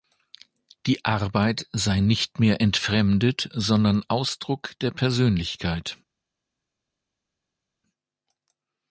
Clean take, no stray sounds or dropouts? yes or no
yes